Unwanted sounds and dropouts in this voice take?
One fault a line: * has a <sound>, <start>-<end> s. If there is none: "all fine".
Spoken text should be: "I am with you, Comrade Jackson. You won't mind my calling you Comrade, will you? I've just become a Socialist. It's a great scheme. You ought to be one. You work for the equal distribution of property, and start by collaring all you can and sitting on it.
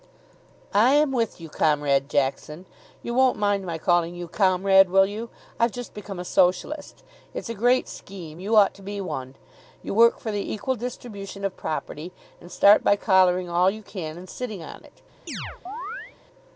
* has a chirp, 15.3-16.2 s